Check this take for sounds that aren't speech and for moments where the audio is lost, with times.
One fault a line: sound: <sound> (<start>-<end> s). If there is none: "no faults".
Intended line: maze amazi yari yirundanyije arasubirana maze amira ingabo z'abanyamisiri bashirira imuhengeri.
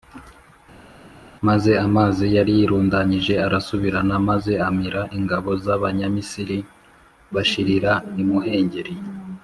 no faults